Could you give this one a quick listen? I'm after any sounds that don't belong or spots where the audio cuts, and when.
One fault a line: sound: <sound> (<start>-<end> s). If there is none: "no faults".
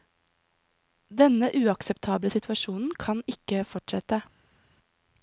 no faults